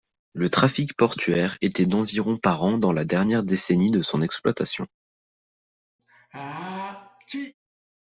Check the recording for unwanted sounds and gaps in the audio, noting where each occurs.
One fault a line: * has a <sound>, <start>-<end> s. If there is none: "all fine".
* has a sneeze, 6.0-7.5 s